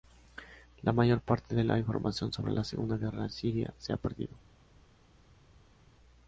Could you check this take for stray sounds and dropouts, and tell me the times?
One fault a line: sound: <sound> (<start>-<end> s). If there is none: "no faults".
no faults